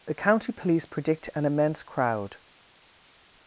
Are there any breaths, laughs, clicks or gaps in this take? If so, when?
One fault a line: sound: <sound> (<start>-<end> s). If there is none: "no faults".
no faults